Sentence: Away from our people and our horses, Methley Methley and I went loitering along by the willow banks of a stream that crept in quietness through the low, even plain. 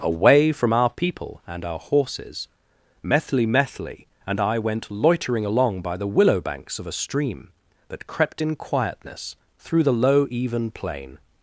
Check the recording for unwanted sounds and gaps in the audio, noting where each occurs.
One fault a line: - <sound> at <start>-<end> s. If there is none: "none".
none